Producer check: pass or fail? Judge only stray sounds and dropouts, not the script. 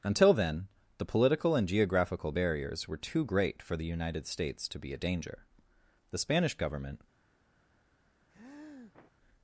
fail